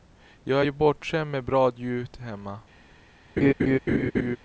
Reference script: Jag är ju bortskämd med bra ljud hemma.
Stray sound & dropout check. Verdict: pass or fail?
fail